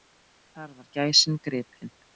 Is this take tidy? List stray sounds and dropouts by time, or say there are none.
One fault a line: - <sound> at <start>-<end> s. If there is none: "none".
none